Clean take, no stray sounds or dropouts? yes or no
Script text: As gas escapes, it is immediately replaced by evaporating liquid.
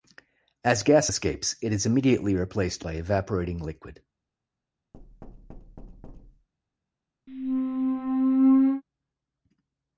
no